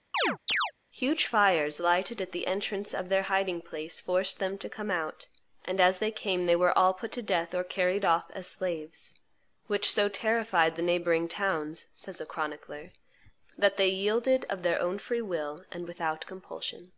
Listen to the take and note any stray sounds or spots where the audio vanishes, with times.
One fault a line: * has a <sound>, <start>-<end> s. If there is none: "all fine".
* has a chirp, 0.1-0.7 s